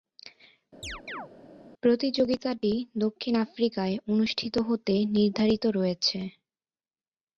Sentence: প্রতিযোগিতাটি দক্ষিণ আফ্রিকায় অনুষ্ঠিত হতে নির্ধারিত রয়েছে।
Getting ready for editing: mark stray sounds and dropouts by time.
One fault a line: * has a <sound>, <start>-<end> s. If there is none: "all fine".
* has a chirp, 0.8-1.3 s